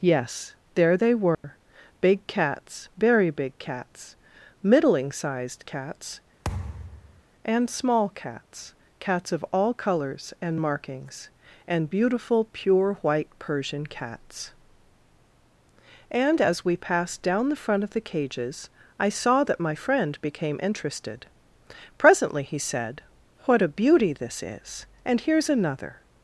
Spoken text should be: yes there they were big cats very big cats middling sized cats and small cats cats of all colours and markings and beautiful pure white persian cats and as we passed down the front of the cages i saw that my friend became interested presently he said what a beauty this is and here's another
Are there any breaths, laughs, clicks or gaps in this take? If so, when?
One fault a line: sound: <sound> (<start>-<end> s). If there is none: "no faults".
sound: dropout (1.3-1.4 s)
sound: thud (6.4-7.2 s)